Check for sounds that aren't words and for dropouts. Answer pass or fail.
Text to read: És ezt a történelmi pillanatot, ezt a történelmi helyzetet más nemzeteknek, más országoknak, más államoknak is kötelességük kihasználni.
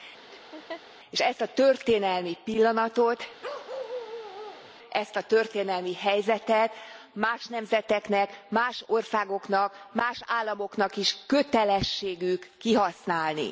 fail